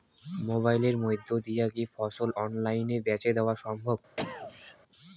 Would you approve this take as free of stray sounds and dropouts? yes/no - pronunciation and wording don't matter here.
no